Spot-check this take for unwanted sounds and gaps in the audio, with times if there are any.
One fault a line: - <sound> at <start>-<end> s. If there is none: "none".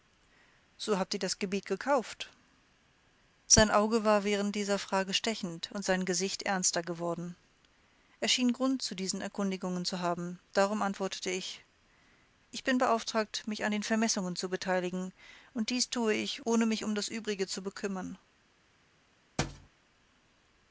- thud at 19.4-19.7 s